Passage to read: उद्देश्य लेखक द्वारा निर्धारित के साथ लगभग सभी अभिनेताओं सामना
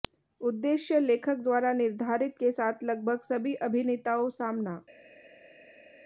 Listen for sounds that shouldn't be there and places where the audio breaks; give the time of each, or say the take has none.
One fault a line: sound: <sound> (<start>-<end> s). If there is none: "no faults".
no faults